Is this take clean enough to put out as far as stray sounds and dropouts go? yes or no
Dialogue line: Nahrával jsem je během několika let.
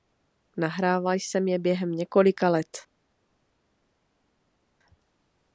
yes